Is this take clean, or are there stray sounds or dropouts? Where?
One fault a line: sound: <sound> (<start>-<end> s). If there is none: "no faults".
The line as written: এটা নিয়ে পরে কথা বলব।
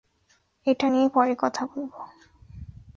no faults